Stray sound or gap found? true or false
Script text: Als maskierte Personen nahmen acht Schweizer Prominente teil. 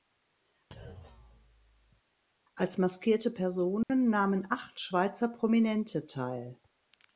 true